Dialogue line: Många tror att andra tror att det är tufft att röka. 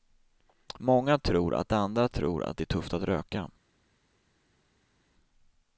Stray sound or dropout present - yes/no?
no